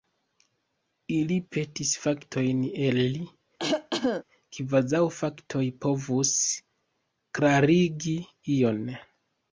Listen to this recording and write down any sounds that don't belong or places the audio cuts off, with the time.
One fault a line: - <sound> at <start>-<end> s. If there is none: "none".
- cough at 3.6-4.2 s